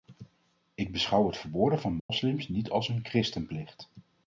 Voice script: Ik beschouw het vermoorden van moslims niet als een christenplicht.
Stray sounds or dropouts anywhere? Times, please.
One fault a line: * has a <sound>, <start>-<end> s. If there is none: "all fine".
* has a dropout, 2.0-2.1 s